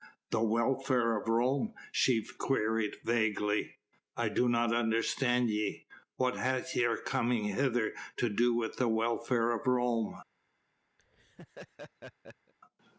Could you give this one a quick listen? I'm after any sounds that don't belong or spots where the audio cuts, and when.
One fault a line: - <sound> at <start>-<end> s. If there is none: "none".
- laugh at 11.0-12.5 s